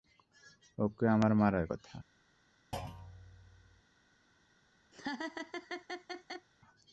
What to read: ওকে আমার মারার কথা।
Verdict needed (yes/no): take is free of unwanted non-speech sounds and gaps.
no